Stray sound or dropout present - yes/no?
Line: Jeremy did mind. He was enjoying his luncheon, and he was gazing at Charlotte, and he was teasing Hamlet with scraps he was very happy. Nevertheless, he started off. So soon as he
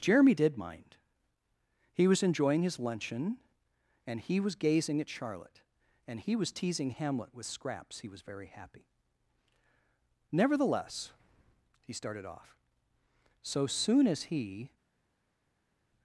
no